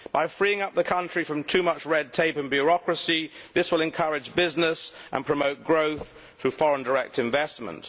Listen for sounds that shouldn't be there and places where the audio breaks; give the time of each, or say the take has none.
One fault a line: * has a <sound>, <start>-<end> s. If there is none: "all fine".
all fine